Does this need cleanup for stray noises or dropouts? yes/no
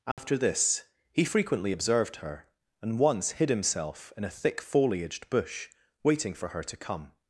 yes